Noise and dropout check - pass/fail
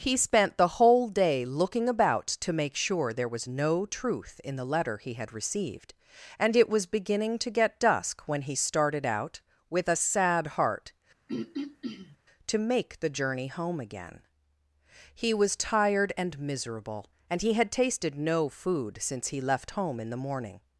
fail